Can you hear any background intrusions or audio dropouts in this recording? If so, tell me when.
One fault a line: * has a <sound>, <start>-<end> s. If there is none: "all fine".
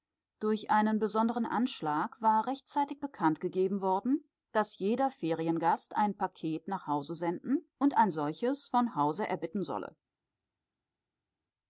all fine